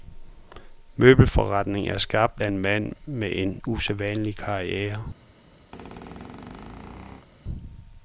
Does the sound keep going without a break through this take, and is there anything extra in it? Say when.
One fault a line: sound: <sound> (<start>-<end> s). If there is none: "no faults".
sound: squeak (5.7-7.3 s)